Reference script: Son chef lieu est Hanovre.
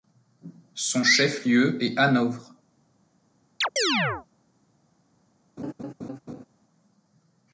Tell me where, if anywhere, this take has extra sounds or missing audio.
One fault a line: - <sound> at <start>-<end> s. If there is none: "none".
- chirp at 3.6-4.3 s
- laugh at 5.6-6.4 s